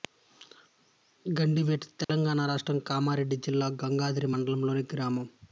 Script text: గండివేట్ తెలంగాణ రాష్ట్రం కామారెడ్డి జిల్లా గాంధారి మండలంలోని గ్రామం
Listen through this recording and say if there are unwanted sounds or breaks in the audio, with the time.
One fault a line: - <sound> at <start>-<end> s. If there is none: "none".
- dropout at 2.0-2.1 s